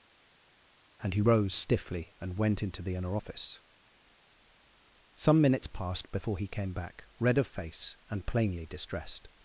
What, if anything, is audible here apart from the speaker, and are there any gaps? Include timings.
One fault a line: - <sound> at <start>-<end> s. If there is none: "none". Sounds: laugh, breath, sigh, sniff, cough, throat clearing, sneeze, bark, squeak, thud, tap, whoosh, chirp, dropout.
none